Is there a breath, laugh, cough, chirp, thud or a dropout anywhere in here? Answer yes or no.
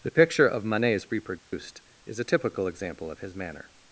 yes